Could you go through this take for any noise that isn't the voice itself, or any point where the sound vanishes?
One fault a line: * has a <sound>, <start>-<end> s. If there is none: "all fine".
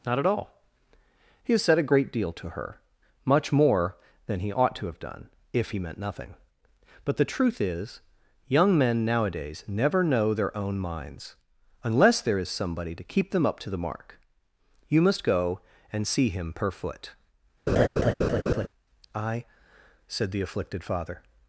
* has a laugh, 17.7-18.7 s